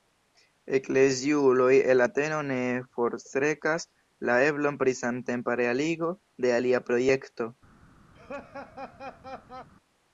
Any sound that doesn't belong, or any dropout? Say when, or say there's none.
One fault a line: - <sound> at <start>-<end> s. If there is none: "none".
- laugh at 8.1-9.7 s